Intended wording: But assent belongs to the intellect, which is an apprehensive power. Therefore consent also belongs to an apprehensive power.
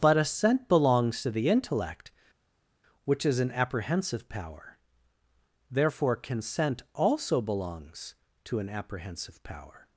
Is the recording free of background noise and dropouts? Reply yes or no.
yes